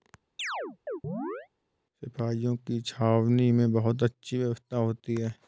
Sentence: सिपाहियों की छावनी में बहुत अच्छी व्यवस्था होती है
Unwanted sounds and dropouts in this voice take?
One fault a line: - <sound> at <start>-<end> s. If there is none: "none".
- chirp at 0.4-1.5 s